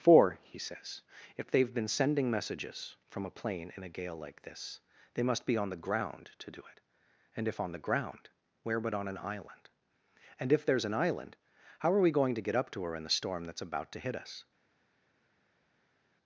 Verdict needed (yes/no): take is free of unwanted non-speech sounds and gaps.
yes